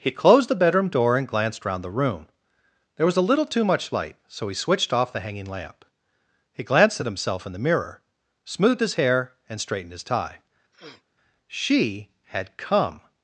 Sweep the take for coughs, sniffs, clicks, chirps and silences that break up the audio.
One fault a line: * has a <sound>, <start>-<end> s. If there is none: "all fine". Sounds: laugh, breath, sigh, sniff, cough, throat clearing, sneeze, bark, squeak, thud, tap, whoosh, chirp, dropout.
* has a sniff, 10.7-11.0 s